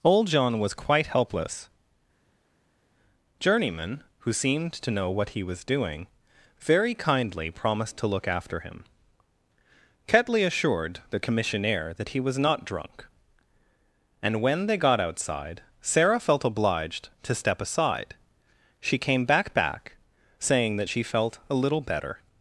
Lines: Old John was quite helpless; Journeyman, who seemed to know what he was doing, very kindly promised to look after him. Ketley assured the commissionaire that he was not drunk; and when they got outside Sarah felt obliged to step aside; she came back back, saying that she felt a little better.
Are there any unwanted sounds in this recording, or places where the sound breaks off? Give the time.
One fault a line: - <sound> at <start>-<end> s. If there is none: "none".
none